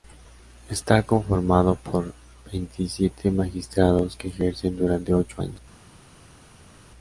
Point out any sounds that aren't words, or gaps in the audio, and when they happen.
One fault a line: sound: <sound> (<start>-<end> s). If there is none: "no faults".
no faults